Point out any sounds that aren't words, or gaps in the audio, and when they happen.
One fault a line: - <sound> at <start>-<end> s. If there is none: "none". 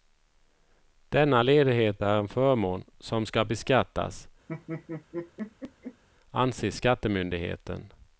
- laugh at 4.5-6.0 s